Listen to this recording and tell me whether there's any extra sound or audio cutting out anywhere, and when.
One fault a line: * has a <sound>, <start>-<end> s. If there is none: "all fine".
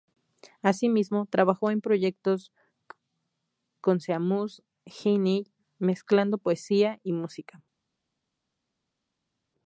all fine